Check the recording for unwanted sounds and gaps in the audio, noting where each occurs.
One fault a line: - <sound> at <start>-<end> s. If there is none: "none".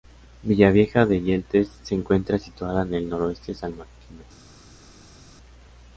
none